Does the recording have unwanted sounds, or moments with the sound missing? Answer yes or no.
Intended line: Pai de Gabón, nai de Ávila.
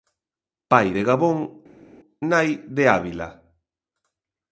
no